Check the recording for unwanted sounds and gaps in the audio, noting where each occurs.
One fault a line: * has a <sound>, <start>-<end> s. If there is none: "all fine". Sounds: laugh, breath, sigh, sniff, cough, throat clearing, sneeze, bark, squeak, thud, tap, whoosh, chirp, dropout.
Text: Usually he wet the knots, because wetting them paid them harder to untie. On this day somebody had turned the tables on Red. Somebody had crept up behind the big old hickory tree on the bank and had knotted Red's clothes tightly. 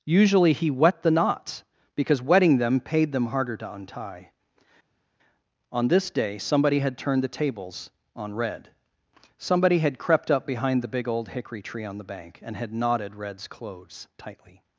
all fine